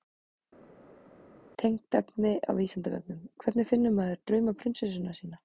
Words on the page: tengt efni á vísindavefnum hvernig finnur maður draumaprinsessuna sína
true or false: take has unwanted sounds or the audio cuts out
false